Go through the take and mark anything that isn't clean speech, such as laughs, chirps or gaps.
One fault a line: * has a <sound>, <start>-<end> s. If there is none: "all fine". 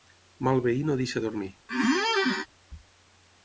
* has a squeak, 1.7-2.5 s